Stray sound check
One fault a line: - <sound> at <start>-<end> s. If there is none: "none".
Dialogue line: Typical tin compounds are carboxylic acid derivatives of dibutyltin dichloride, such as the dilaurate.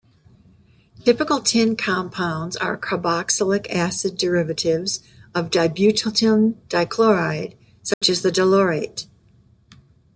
- dropout at 7.9-8.0 s